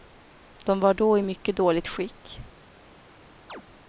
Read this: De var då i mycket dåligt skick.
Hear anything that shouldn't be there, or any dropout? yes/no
yes